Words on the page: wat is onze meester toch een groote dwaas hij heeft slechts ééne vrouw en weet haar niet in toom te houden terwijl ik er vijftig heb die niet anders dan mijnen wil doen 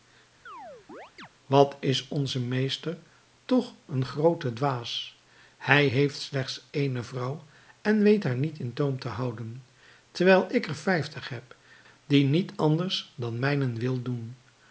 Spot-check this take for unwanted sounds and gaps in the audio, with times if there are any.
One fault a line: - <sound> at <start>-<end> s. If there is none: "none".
- chirp at 0.5-1.3 s